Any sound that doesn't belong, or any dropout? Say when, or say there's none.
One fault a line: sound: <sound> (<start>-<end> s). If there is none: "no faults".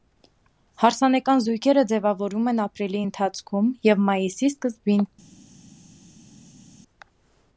no faults